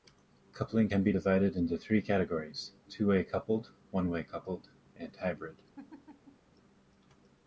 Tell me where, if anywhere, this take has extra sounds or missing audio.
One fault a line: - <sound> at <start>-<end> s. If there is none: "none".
- laugh at 5.8-6.5 s